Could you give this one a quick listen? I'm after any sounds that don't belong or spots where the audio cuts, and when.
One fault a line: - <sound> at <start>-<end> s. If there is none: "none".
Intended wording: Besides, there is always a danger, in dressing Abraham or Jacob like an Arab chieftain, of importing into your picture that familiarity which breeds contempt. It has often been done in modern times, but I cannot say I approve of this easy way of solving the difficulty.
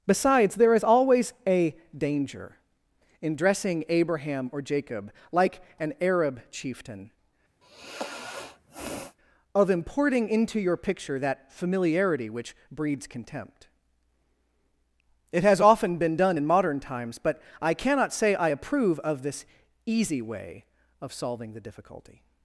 - sigh at 7.6-9.2 s